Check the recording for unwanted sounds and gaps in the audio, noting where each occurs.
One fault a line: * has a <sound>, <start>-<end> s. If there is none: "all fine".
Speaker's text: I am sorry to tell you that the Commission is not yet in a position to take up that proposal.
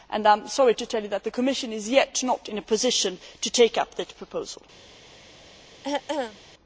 * has a throat clearing, 5.8-6.4 s